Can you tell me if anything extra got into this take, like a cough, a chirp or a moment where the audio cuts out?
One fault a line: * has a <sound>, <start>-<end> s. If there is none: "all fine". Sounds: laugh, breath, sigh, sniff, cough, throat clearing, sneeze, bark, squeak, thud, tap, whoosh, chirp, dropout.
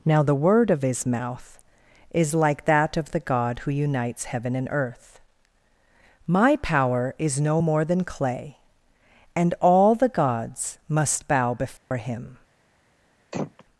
* has a dropout, 11.8-11.9 s
* has a throat clearing, 13.3-13.6 s